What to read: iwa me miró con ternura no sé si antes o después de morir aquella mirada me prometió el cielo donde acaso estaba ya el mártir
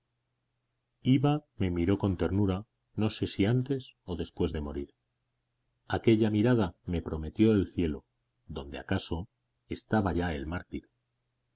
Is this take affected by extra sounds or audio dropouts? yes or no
no